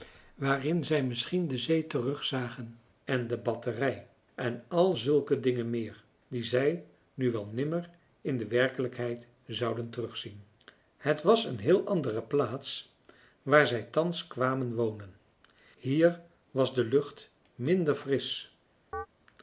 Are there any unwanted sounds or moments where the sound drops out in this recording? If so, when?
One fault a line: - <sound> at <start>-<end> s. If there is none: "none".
- chirp at 18.9-19.1 s